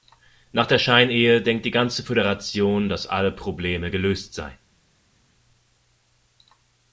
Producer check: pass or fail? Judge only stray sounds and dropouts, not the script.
pass